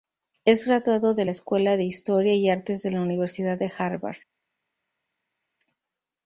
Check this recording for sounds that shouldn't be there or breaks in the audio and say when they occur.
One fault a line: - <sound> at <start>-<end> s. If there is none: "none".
none